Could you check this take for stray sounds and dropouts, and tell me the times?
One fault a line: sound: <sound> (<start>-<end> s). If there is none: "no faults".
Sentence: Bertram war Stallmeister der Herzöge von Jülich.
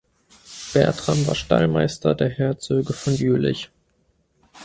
no faults